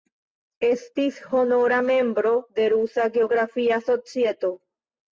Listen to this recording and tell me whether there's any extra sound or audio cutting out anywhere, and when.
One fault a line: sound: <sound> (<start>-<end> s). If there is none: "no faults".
no faults